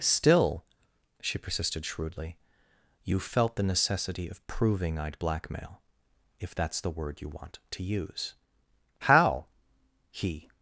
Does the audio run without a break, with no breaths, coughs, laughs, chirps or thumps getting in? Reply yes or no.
yes